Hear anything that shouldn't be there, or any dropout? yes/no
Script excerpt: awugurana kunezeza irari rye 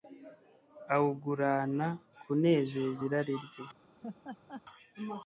yes